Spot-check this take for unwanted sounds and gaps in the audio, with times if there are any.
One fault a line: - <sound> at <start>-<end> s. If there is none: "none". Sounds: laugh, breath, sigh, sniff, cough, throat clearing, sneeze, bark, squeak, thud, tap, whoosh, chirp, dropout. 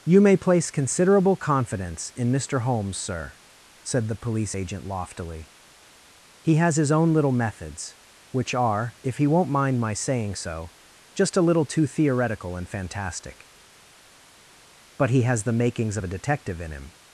none